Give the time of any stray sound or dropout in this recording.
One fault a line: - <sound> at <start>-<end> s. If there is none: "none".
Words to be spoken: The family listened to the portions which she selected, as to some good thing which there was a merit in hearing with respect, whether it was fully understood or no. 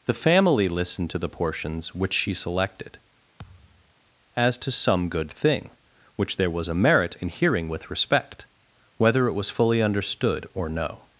- thud at 3.4-3.9 s